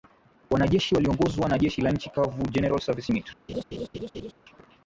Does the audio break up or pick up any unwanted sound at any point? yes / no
yes